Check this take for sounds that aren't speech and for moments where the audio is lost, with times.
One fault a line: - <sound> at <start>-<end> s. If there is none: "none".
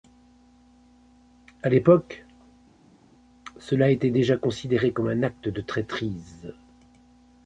none